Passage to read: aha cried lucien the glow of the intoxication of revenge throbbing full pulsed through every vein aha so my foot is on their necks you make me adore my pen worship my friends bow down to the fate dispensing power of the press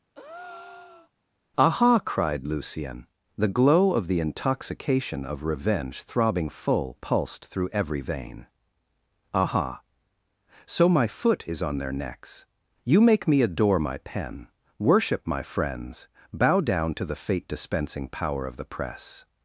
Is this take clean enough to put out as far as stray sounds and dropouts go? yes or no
no